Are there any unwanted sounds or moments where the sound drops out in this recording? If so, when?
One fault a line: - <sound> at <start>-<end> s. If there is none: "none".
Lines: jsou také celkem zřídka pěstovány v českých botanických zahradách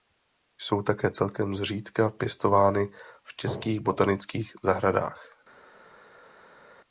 none